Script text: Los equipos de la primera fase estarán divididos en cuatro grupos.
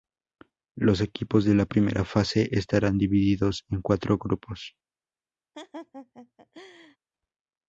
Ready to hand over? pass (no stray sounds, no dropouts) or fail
fail